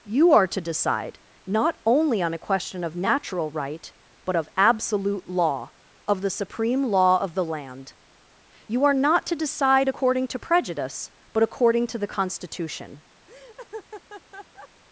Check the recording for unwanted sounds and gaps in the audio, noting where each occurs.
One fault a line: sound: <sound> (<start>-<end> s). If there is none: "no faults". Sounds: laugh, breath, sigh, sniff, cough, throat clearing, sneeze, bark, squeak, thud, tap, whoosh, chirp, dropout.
sound: laugh (13.3-14.7 s)